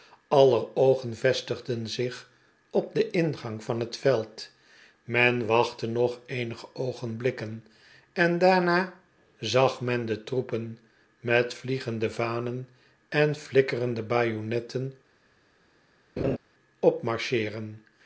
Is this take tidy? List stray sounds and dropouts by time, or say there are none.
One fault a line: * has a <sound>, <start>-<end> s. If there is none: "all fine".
* has a laugh, 16.2-16.4 s